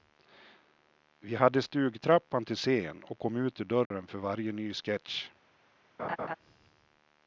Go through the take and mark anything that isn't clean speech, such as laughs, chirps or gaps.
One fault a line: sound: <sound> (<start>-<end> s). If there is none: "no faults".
sound: dropout (3.9-3.9 s)
sound: laugh (6.0-6.4 s)